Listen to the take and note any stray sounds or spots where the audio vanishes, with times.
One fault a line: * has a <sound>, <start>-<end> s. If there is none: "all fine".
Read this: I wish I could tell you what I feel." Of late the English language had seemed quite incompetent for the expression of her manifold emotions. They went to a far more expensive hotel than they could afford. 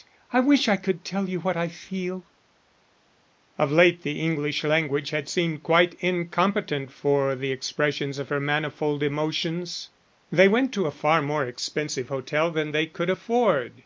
all fine